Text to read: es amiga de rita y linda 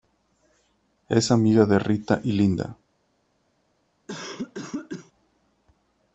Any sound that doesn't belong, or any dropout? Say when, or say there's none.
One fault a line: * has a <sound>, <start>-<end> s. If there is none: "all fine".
* has a cough, 4.1-5.1 s